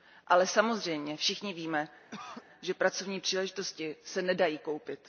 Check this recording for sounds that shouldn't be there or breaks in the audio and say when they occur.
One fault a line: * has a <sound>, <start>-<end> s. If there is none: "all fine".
* has a cough, 2.1-2.4 s